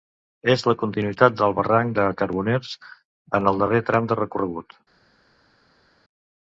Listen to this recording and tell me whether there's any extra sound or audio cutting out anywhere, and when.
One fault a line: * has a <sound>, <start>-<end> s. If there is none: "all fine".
all fine